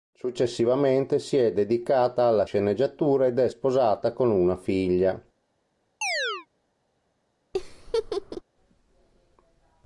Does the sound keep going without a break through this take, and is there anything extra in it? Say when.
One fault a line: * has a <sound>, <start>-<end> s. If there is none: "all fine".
* has a chirp, 6.0-6.5 s
* has a laugh, 7.5-8.4 s